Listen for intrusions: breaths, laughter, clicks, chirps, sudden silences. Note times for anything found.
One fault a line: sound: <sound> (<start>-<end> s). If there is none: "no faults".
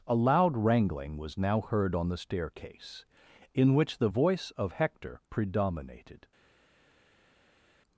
no faults